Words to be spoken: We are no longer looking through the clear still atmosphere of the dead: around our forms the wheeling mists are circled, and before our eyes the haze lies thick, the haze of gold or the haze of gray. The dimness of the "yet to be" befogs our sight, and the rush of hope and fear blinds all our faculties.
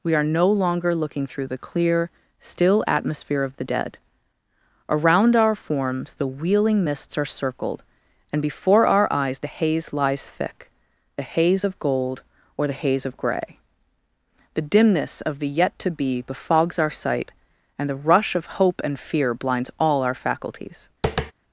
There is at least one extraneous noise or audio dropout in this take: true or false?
true